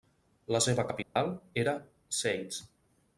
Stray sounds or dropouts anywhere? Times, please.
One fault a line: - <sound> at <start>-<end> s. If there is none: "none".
- dropout at 1.0-1.2 s